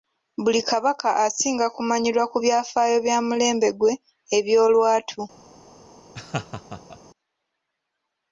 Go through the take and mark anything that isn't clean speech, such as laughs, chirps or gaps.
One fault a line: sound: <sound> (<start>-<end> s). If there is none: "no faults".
sound: laugh (6.1-7.0 s)